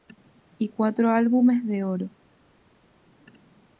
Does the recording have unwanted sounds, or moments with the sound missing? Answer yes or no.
no